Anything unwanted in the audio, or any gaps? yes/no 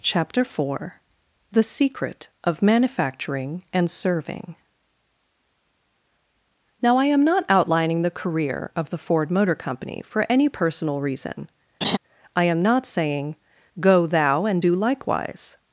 yes